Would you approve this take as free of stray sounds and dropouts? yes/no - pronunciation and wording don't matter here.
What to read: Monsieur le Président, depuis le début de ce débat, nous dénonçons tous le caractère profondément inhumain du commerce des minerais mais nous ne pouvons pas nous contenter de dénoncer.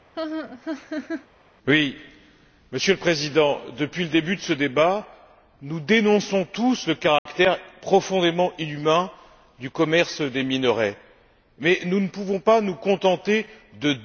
no